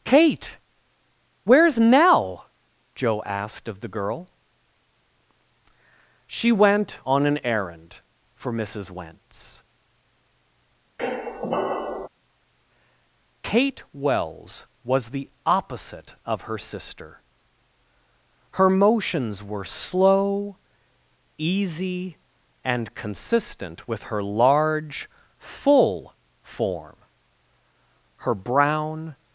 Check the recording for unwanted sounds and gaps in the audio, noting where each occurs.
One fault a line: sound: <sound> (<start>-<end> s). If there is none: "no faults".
sound: squeak (11.0-12.1 s)